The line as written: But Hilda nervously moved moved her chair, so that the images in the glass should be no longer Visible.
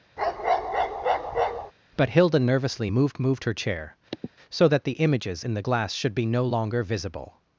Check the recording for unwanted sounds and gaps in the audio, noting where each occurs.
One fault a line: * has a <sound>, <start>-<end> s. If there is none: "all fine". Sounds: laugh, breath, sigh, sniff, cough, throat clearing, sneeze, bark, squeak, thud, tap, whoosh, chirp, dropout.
* has a bark, 0.2-1.7 s
* has a sniff, 4.1-4.3 s